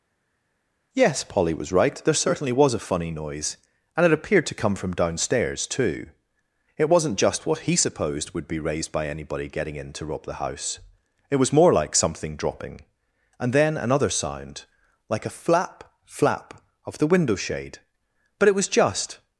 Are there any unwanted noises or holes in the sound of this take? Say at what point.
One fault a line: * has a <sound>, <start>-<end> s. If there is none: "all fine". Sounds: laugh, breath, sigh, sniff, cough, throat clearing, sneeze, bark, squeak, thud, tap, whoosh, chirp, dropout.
all fine